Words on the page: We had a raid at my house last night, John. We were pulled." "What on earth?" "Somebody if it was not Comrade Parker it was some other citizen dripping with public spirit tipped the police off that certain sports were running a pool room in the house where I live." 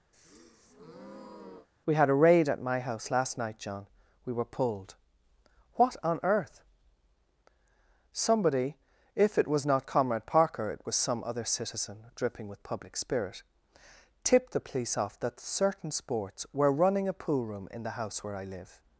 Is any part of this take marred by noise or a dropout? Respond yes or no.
yes